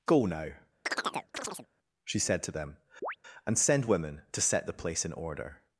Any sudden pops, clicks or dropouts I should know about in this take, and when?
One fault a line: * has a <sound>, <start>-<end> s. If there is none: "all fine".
* has a chirp, 0.9-1.7 s
* has a chirp, 3.0-3.2 s